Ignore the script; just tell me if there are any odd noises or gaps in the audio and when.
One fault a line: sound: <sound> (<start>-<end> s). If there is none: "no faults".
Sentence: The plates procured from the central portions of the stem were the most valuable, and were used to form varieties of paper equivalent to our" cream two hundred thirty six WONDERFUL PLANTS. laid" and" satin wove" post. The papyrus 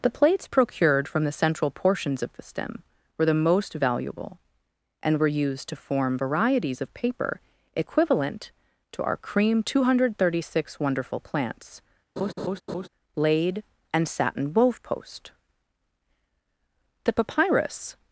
sound: laugh (12.2-12.9 s)